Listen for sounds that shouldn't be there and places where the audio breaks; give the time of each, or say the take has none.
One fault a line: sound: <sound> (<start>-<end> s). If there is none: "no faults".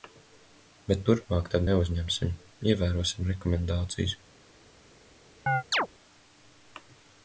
sound: chirp (5.5-5.9 s)